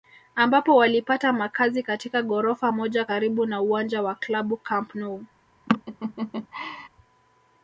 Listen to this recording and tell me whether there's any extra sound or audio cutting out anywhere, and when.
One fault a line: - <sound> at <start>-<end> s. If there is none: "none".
- laugh at 5.7-6.9 s